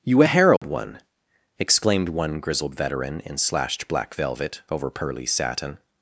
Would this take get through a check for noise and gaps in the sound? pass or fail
fail